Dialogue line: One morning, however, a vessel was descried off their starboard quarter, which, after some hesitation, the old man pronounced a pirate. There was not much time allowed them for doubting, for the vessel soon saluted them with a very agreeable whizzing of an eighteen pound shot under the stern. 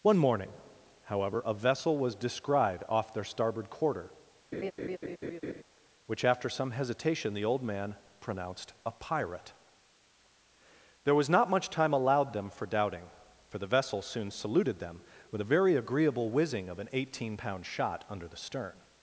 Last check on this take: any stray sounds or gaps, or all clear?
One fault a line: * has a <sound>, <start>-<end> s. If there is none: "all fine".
* has a laugh, 4.5-5.6 s